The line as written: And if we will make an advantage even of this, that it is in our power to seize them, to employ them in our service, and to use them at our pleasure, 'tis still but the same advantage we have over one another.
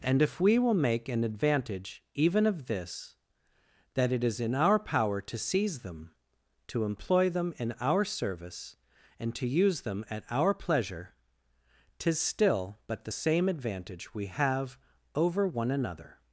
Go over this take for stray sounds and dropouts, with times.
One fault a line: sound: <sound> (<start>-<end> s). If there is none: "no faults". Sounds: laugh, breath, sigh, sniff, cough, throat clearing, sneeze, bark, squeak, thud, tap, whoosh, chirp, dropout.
no faults